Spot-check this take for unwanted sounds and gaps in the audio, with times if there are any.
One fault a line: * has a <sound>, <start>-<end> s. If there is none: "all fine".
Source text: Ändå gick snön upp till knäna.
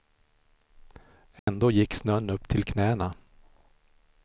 * has a dropout, 1.4-1.5 s